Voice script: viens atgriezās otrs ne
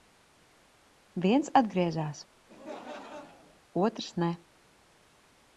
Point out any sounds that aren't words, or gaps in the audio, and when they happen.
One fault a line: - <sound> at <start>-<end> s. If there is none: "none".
- laugh at 2.5-3.6 s